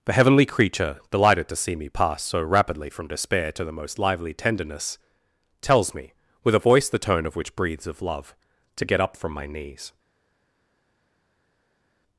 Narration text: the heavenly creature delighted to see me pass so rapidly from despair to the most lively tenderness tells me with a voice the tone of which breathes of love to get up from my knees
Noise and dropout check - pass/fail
pass